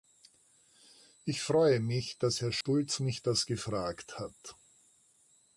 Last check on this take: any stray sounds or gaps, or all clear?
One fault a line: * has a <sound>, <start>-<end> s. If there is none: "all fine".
* has a dropout, 2.6-2.7 s